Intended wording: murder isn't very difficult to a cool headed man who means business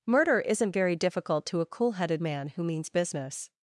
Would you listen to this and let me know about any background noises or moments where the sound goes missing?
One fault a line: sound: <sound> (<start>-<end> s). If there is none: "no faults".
no faults